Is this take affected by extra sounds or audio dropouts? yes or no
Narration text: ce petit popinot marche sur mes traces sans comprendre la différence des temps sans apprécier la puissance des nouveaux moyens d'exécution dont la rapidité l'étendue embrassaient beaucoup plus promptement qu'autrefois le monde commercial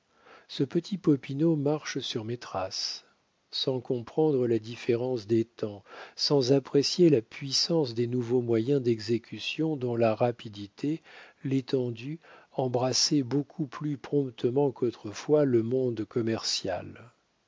no